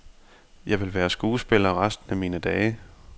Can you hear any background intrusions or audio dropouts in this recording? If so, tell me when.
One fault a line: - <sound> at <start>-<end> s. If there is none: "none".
none